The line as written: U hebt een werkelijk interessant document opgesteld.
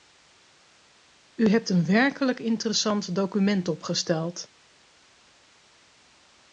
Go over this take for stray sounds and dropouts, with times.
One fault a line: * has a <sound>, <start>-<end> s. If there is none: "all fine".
all fine